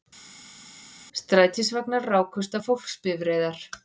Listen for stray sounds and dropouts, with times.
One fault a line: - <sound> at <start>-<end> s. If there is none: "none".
none